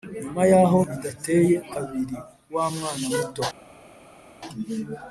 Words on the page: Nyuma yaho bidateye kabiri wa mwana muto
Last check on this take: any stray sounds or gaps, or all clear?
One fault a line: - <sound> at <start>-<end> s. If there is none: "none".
none